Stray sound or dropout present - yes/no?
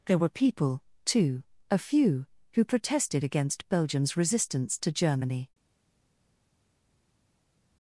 no